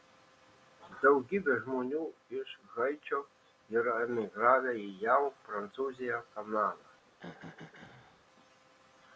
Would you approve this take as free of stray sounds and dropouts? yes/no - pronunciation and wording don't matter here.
no